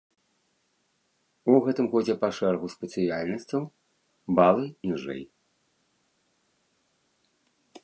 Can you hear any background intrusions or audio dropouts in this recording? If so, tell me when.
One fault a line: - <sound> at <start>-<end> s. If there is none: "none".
none